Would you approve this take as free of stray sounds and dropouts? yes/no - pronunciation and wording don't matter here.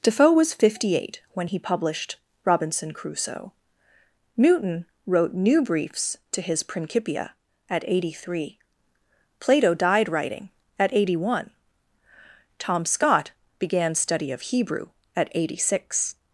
yes